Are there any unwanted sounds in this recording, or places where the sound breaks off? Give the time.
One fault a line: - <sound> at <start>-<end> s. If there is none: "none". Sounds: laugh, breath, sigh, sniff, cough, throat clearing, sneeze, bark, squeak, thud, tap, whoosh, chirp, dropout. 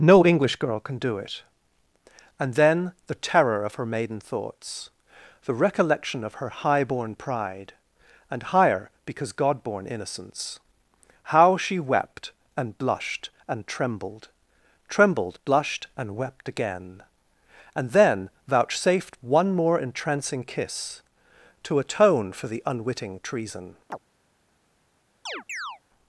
- chirp at 23.9-24.0 s
- chirp at 25.3-25.8 s